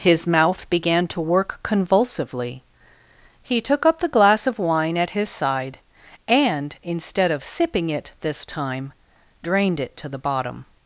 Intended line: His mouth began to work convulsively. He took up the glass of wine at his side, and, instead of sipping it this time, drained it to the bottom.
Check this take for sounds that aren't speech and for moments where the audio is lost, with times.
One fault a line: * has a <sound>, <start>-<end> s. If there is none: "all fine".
all fine